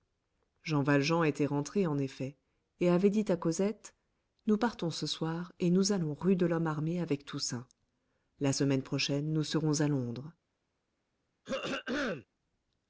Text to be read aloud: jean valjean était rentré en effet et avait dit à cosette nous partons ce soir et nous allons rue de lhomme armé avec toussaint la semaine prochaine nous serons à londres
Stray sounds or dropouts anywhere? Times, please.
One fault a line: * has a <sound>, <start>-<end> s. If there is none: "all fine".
* has a throat clearing, 11.4-12.3 s